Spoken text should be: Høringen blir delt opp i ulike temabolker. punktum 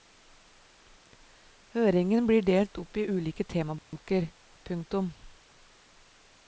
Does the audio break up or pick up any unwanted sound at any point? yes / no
yes